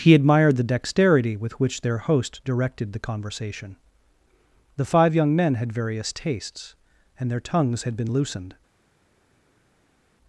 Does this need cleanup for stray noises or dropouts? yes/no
no